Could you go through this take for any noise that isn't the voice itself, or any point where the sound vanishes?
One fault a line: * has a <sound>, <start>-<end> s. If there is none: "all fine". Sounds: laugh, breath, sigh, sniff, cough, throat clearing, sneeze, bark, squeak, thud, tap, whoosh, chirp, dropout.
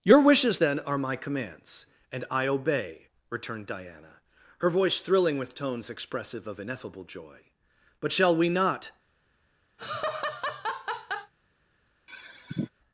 * has a laugh, 9.8-11.3 s
* has a sigh, 12.1-12.7 s